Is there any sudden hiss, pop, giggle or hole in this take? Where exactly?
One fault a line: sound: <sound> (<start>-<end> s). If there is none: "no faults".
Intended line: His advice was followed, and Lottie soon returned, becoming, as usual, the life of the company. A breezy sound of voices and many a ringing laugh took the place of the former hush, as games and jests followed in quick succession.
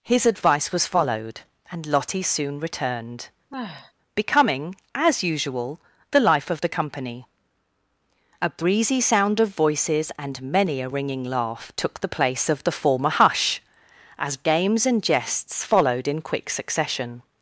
sound: sigh (3.5-3.9 s)